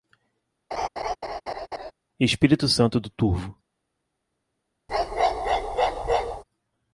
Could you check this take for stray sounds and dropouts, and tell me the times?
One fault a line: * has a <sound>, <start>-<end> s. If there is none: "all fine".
* has a laugh, 0.7-1.9 s
* has a bark, 4.9-6.4 s